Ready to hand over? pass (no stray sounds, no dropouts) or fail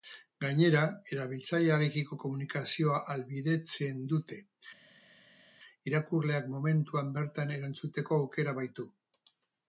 pass